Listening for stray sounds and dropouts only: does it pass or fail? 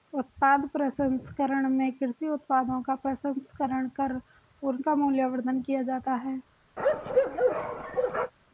fail